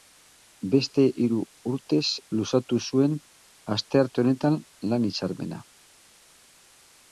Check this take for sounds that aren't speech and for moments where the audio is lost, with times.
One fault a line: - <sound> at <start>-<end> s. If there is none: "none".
none